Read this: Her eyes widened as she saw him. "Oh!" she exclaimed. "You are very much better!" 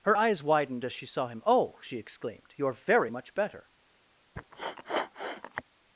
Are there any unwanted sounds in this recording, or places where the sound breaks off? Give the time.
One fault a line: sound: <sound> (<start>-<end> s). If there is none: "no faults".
sound: sniff (4.4-5.6 s)